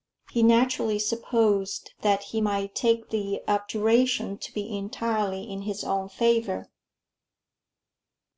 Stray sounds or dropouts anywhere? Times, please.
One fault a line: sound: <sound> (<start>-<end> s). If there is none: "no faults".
no faults